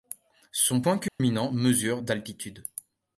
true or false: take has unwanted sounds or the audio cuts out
true